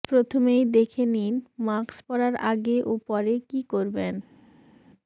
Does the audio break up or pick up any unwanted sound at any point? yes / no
no